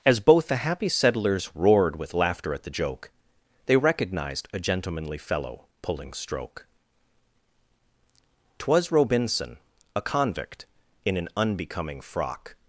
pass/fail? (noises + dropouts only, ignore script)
pass